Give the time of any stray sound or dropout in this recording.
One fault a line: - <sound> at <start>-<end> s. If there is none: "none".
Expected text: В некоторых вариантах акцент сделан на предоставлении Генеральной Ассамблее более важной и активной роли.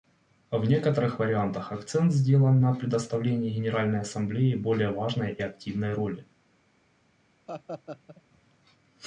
- laugh at 7.5-8.2 s